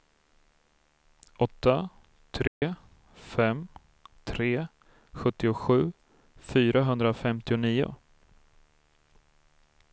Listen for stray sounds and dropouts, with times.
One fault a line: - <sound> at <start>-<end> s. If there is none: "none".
- dropout at 2.5-2.6 s